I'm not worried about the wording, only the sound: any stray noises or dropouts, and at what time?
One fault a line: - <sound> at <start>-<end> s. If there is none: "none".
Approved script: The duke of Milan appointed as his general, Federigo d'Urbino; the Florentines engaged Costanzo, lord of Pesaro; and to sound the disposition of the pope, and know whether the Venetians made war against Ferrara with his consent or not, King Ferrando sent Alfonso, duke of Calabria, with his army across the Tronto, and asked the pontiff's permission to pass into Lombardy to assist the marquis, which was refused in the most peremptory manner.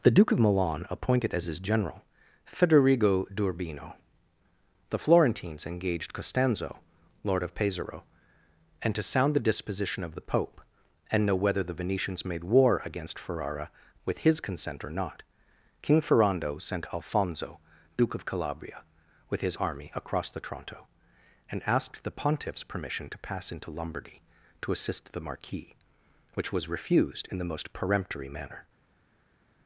none